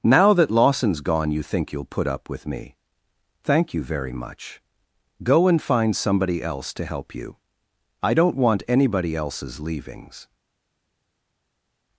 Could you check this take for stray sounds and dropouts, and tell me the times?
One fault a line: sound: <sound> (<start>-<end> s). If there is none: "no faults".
no faults